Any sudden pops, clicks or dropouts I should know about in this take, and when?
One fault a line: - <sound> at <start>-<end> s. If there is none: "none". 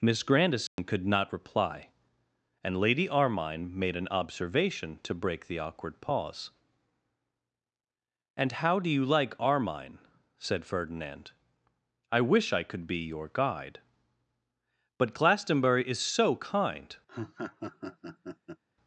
- dropout at 0.7-0.8 s
- laugh at 17.1-18.6 s